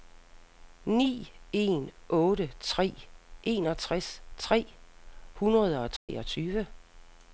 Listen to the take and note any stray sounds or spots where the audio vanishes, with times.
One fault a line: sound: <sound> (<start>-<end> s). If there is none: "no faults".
sound: dropout (6.0-6.1 s)